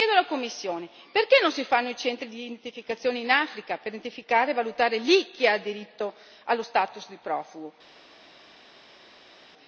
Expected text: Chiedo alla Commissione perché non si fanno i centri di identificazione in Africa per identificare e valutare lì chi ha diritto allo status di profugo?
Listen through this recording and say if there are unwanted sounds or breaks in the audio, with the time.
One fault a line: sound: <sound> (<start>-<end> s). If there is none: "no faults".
no faults